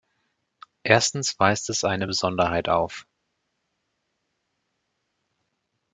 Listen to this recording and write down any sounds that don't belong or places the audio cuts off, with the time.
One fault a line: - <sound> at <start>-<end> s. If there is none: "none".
none